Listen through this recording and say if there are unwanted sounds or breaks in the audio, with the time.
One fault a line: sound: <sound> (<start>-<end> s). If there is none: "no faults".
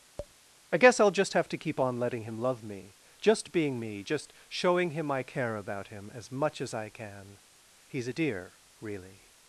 sound: tap (0.2-0.3 s)